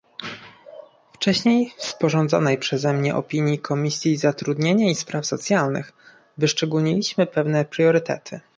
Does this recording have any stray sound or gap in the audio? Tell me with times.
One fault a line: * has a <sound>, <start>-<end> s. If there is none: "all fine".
all fine